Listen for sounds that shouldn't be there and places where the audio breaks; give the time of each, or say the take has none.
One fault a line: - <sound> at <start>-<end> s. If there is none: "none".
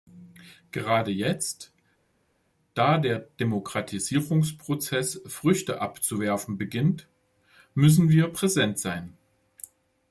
none